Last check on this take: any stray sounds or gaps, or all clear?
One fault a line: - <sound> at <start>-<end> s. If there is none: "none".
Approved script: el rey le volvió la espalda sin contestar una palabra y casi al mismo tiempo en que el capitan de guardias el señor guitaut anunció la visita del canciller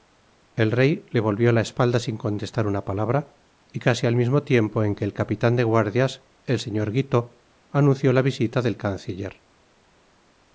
none